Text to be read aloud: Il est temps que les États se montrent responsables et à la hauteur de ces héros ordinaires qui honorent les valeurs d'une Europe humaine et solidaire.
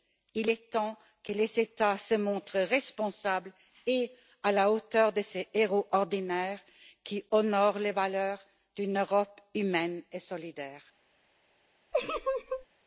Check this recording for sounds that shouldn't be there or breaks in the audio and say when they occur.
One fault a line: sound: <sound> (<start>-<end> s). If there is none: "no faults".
sound: laugh (11.9-12.7 s)